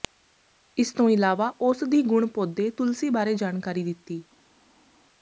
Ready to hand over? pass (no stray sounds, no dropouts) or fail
pass